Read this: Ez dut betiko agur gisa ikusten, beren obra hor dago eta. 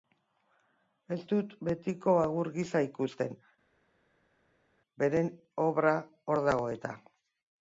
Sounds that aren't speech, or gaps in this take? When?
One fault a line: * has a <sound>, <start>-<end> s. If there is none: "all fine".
all fine